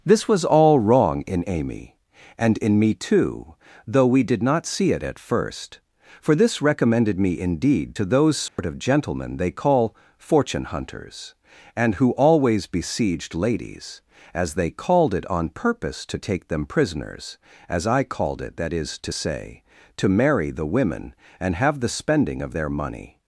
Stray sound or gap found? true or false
true